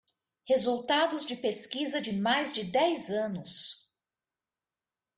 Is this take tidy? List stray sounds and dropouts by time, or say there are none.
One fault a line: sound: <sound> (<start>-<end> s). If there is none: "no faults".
no faults